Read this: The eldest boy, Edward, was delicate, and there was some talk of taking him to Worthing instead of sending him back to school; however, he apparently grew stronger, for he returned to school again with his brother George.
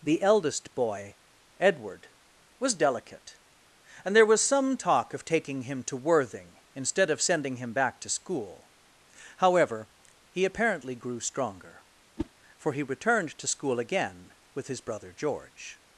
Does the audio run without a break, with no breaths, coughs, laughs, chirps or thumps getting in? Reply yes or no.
no